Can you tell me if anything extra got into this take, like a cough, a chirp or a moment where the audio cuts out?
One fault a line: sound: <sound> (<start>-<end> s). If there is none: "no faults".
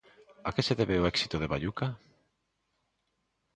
no faults